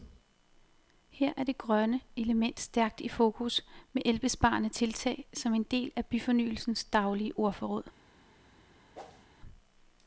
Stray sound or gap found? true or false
true